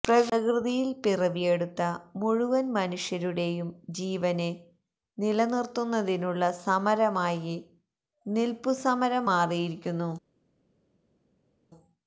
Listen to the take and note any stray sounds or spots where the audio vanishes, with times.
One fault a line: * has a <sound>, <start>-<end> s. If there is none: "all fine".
all fine